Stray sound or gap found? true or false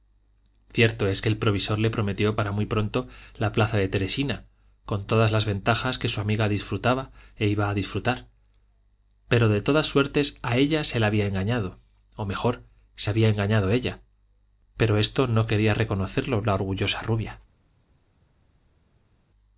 false